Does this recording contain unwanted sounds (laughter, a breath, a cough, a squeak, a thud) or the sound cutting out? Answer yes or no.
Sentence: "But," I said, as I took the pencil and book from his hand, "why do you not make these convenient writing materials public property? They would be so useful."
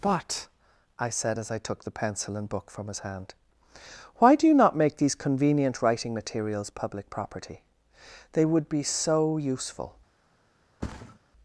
yes